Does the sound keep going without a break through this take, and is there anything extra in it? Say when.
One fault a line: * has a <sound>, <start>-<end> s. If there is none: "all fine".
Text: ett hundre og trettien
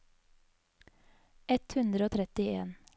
all fine